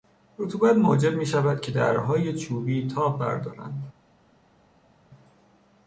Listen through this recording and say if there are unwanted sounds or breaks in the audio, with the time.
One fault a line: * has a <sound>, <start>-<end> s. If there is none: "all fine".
all fine